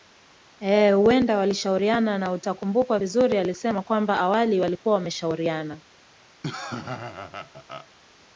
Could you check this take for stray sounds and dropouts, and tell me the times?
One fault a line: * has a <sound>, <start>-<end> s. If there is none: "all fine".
* has a laugh, 6.4-7.9 s